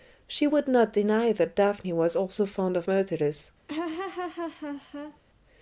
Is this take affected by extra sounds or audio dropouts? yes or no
yes